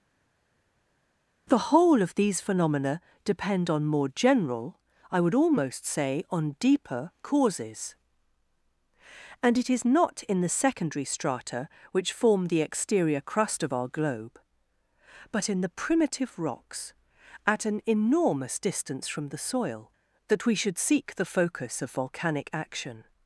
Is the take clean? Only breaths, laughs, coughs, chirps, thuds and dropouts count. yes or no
yes